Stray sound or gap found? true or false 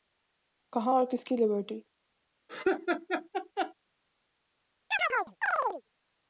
true